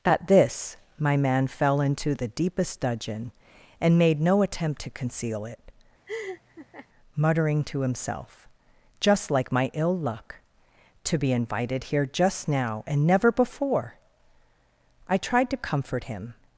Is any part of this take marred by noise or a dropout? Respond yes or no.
yes